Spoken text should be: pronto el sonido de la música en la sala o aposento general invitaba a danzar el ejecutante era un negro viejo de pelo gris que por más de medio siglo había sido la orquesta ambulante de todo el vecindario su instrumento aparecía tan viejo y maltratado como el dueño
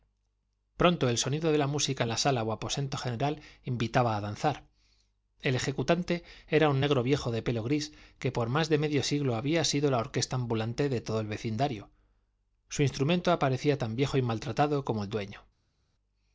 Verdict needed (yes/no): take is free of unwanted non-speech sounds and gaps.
yes